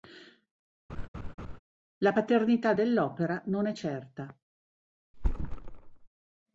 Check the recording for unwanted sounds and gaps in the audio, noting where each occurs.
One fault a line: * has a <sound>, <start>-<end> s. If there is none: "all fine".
* has a laugh, 0.9-1.6 s
* has a thud, 5.1-6.1 s